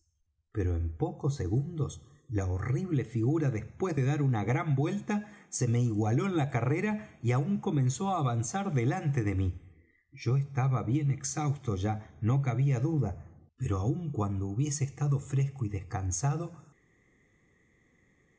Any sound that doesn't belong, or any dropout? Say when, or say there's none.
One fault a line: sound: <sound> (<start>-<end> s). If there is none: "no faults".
no faults